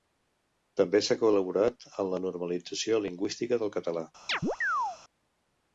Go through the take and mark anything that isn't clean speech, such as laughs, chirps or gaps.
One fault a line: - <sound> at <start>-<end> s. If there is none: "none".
- chirp at 4.3-5.0 s